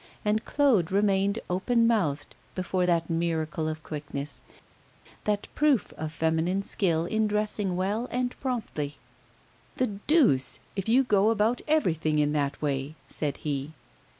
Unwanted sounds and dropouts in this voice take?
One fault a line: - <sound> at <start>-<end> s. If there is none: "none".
none